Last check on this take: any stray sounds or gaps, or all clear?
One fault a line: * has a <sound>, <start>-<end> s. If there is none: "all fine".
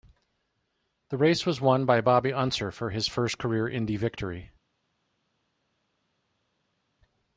all fine